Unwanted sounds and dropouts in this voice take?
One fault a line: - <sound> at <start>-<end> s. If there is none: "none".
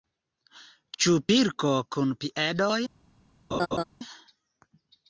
- laugh at 3.5-3.8 s